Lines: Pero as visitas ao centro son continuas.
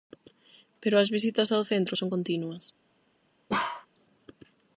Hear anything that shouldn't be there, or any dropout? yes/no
yes